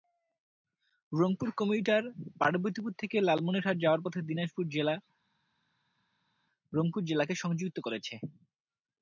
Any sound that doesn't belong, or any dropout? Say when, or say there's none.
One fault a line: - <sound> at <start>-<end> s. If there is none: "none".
none